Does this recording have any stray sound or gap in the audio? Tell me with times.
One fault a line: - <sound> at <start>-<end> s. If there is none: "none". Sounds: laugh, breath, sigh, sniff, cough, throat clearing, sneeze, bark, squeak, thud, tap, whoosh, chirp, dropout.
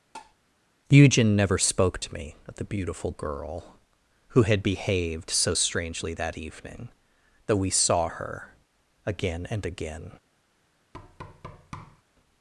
- tap at 0.1-0.3 s
- thud at 10.9-12.0 s